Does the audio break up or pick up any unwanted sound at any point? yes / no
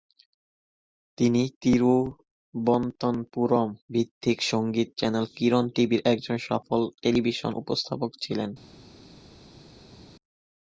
no